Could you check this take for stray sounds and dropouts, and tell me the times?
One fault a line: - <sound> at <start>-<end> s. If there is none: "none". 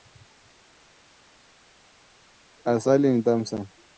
none